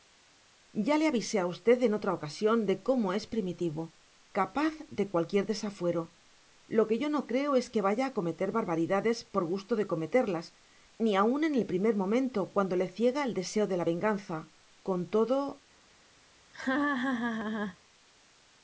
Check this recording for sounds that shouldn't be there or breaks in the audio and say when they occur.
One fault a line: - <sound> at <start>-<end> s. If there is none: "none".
- laugh at 16.5-17.8 s